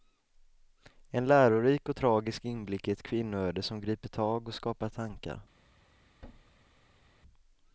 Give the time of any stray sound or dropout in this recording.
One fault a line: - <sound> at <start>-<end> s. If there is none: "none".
- thud at 6.2-7.2 s